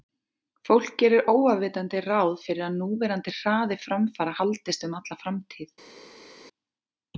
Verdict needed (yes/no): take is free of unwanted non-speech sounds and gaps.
yes